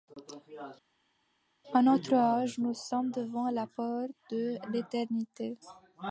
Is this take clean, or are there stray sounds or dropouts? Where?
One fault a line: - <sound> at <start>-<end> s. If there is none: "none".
none